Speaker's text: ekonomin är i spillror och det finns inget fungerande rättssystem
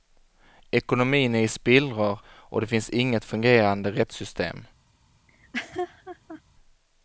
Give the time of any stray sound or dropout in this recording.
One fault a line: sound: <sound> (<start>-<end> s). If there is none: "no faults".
sound: laugh (5.3-6.4 s)